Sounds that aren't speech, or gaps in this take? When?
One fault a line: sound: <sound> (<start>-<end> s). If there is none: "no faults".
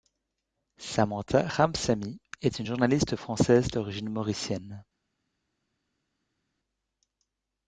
no faults